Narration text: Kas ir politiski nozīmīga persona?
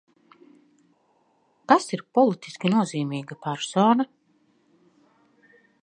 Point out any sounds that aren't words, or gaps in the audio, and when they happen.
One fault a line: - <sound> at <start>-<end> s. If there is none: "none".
none